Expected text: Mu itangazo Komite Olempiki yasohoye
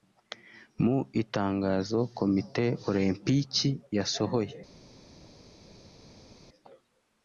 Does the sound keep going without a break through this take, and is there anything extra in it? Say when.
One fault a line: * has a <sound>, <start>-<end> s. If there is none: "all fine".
all fine